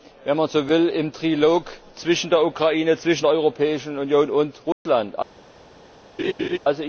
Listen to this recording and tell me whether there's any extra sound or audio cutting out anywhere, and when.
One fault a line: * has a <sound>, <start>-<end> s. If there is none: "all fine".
* has a dropout, 4.7-4.9 s
* has a laugh, 6.2-6.6 s